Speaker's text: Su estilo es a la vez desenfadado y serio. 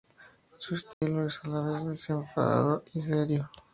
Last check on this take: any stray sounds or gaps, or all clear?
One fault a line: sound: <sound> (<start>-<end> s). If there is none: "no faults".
sound: dropout (0.9-1.0 s)